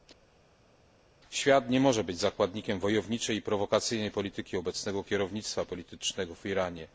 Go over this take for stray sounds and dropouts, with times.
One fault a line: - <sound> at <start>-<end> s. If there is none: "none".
none